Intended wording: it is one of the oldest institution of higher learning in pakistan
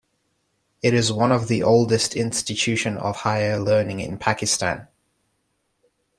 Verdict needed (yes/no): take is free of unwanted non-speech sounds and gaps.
yes